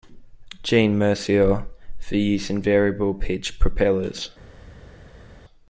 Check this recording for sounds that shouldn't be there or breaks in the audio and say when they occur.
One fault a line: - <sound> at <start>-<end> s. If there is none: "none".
none